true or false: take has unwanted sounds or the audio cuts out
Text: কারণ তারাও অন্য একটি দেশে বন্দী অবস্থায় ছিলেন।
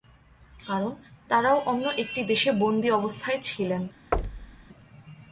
true